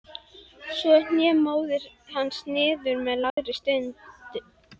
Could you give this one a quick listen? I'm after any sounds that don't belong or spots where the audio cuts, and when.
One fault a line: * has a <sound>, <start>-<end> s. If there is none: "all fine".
* has a dropout, 3.3-3.4 s